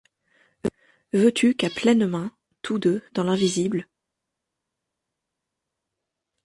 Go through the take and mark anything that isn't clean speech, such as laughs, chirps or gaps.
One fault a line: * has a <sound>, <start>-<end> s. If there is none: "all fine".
all fine